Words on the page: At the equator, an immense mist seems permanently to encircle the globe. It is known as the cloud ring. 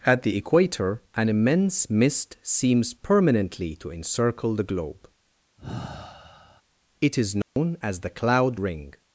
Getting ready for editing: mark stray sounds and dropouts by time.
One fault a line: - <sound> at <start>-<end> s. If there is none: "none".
- sigh at 5.6-6.6 s
- dropout at 7.4-7.6 s